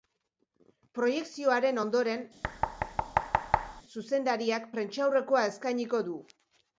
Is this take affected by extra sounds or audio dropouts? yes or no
yes